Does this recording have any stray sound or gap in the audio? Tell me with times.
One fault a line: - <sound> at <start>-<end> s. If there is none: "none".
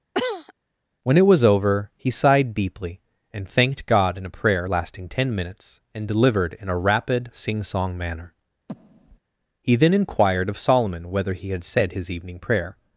- cough at 0.1-0.5 s
- breath at 8.7-9.2 s